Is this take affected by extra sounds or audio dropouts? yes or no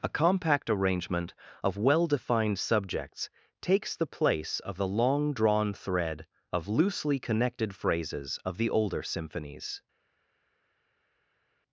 no